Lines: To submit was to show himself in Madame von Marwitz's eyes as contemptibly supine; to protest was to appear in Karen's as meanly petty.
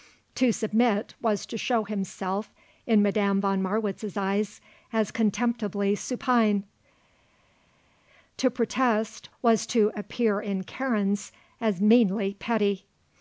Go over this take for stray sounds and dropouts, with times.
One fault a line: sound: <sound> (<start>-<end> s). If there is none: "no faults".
no faults